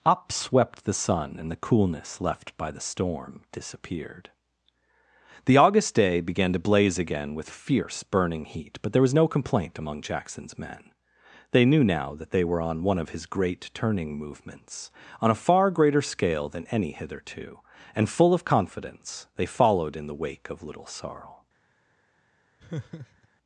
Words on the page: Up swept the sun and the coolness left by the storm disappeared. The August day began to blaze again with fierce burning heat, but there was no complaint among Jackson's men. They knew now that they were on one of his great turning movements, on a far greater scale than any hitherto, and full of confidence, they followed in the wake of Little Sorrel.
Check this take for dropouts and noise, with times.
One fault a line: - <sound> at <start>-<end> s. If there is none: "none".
- laugh at 22.6-23.3 s